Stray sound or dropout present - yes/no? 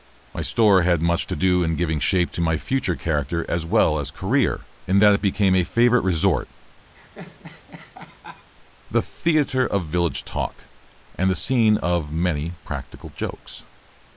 yes